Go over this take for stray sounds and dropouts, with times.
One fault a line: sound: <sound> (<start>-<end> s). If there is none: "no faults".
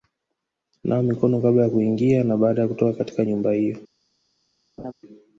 sound: laugh (4.8-4.9 s)